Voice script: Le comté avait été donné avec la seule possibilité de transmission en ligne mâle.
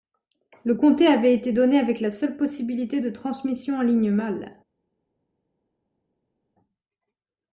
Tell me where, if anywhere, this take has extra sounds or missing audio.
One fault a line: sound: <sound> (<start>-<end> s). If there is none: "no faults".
no faults